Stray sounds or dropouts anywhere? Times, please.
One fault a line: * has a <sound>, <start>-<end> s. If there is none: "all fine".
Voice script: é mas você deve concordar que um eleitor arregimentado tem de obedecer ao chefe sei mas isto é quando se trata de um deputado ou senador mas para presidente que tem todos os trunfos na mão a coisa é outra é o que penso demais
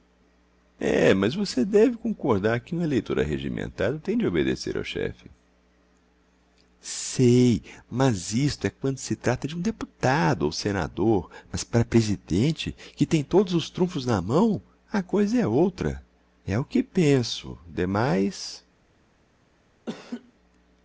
* has a laugh, 19.9-20.3 s